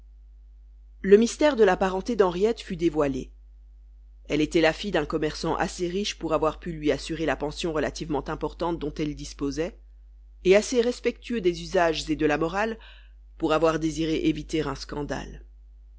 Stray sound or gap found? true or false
false